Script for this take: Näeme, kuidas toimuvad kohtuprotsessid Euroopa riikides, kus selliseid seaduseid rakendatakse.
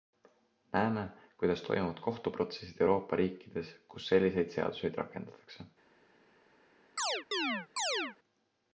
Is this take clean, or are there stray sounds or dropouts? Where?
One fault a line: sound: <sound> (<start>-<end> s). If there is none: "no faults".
sound: chirp (7.0-8.2 s)